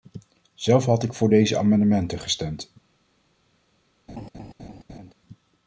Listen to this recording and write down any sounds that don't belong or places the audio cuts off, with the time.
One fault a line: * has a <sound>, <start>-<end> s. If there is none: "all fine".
* has a laugh, 4.1-5.1 s